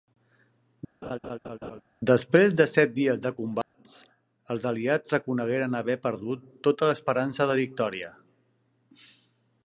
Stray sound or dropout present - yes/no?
yes